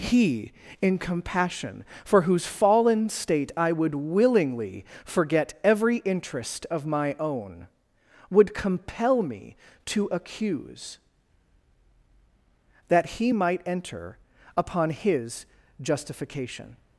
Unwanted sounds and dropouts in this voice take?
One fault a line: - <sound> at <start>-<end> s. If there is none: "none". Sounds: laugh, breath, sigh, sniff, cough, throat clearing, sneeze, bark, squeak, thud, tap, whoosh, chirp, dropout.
none